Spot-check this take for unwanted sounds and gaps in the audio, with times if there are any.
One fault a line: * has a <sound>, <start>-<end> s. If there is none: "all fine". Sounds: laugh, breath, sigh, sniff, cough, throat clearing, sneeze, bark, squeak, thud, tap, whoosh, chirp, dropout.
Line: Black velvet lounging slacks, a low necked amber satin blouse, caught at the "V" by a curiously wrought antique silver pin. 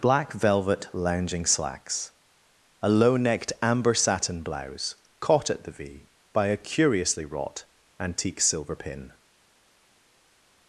all fine